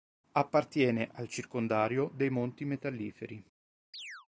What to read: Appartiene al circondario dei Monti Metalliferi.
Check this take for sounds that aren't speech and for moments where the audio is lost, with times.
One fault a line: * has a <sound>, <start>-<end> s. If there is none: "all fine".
* has a chirp, 3.9-4.3 s